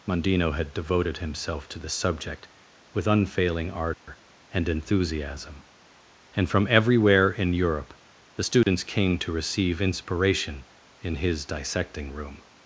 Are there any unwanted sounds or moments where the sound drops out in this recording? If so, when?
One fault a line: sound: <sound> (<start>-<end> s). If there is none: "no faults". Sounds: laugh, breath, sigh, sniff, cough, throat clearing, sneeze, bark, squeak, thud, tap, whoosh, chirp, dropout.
sound: dropout (3.9-4.1 s)
sound: dropout (8.6-8.7 s)